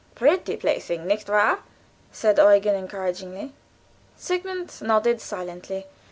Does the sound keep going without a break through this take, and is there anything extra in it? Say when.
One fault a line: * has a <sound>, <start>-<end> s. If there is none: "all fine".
all fine